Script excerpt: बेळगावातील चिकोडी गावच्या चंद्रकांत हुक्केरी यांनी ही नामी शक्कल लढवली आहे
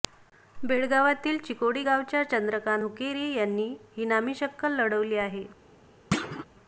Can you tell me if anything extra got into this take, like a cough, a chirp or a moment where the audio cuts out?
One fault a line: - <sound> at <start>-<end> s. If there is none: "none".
- thud at 6.1-6.5 s